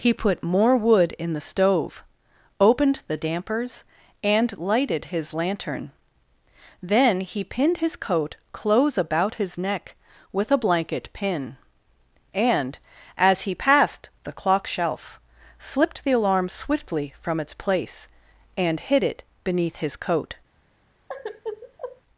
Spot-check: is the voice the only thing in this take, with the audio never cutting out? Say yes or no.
no